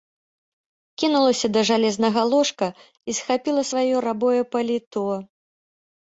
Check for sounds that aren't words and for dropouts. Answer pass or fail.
pass